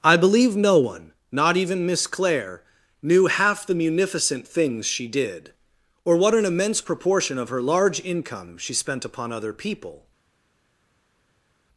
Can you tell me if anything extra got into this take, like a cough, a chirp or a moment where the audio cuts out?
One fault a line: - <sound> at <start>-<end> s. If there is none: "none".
none